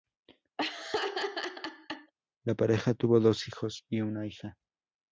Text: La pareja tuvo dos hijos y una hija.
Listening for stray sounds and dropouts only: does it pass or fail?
fail